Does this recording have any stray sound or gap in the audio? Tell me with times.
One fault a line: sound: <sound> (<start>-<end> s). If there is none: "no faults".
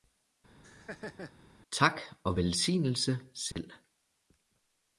sound: laugh (0.6-1.3 s)
sound: dropout (3.5-3.6 s)